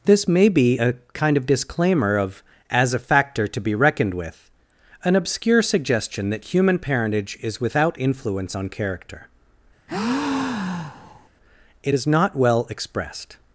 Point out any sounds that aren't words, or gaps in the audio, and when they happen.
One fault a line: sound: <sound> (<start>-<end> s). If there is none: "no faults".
sound: breath (9.9-11.3 s)